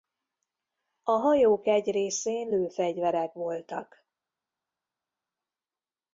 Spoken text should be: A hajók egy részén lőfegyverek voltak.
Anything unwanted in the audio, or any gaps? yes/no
no